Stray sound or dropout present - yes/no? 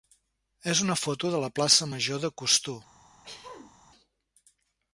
yes